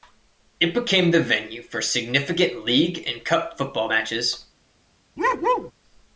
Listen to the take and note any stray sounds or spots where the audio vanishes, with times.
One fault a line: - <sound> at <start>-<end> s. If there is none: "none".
- bark at 5.2-5.7 s